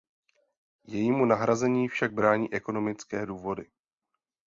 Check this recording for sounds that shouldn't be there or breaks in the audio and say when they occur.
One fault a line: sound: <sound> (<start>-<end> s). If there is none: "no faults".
no faults